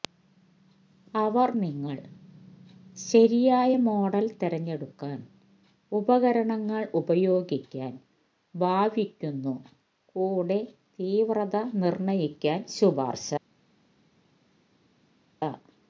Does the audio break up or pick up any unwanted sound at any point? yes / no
no